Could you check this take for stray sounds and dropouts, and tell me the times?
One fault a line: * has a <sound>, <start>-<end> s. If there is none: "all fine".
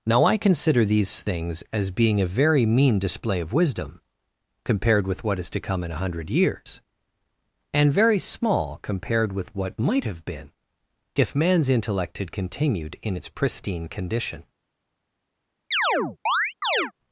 * has a chirp, 15.7-16.9 s